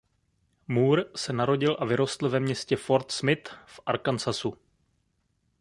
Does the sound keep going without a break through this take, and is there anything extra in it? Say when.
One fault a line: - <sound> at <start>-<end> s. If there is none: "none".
none